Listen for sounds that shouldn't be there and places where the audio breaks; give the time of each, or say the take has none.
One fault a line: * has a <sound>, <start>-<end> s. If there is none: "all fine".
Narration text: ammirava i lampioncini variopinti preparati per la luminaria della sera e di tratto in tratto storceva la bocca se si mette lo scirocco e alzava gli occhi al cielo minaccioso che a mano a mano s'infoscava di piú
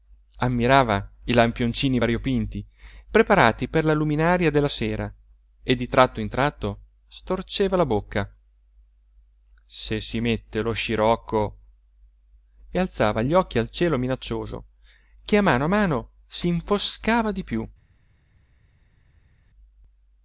all fine